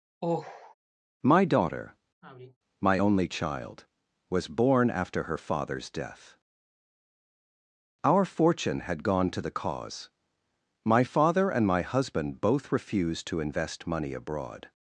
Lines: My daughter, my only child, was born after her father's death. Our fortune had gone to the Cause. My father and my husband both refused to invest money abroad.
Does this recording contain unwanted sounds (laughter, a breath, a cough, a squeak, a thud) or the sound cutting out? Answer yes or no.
yes